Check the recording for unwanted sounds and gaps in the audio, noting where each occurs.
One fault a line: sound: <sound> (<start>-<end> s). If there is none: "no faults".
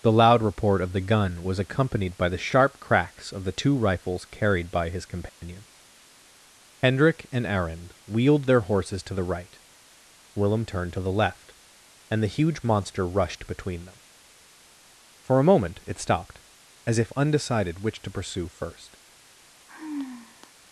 sound: dropout (5.3-5.4 s)
sound: sigh (19.7-20.5 s)